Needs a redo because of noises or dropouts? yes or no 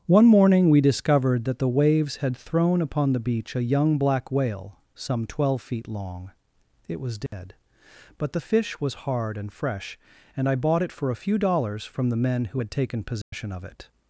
yes